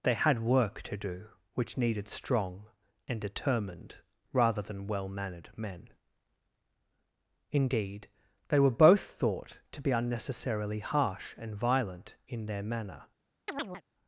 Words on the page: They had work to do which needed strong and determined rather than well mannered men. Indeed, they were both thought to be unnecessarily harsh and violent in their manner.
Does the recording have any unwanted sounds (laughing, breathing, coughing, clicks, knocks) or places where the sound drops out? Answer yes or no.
yes